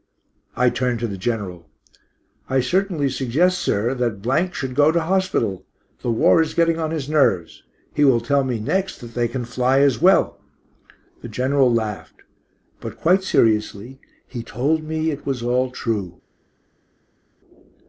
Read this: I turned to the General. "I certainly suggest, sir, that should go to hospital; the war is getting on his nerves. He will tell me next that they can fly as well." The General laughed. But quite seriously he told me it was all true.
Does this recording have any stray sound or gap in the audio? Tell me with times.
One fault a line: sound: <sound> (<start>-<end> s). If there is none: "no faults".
no faults